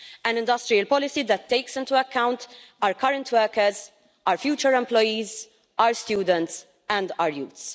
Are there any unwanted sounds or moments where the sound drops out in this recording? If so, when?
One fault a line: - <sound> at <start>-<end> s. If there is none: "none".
none